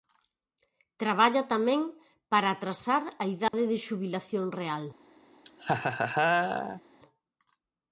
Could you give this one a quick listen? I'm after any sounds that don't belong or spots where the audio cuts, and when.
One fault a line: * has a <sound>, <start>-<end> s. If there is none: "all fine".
* has a dropout, 3.5-3.5 s
* has a laugh, 5.5-6.8 s